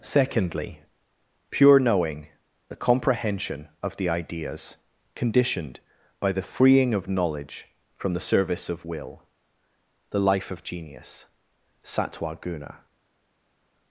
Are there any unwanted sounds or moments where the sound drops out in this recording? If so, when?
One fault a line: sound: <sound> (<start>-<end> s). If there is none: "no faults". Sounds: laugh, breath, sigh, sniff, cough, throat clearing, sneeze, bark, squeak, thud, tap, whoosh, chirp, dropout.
no faults